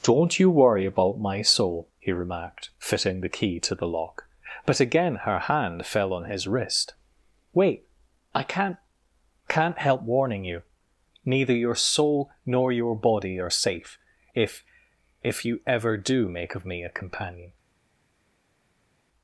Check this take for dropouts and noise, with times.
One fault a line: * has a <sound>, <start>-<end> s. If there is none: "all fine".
all fine